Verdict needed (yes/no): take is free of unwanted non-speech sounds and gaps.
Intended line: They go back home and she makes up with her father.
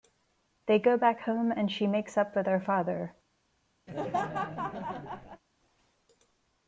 no